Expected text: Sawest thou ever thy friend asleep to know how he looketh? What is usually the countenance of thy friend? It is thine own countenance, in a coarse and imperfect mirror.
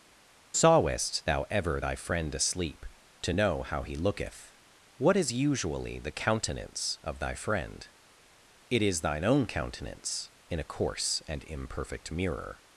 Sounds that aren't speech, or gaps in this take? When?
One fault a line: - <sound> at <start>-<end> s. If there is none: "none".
none